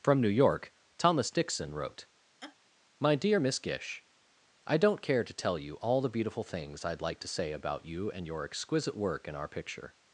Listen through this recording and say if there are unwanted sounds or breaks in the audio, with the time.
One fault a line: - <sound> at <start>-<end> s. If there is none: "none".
- laugh at 2.4-2.6 s